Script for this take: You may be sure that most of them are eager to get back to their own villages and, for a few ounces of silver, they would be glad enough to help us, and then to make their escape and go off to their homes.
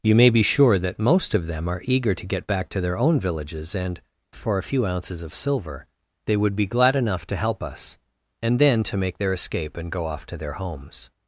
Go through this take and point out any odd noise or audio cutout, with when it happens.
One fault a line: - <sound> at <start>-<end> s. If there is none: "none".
none